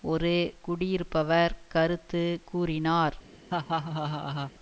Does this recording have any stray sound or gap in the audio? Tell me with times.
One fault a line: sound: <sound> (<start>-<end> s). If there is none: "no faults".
sound: laugh (3.5-4.5 s)